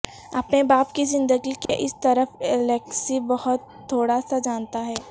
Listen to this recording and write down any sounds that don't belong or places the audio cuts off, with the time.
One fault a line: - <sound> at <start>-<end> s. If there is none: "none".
- dropout at 1.7-1.7 s